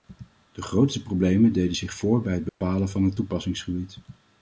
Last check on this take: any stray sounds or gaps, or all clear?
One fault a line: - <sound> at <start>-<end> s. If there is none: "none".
- dropout at 2.5-2.6 s